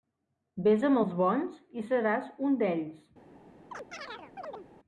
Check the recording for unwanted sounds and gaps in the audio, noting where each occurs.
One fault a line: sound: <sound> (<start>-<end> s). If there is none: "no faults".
sound: chirp (3.7-4.7 s)